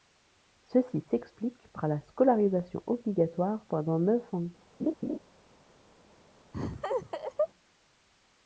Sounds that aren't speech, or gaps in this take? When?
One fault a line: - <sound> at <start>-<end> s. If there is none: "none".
- laugh at 4.8-5.2 s
- laugh at 6.5-7.5 s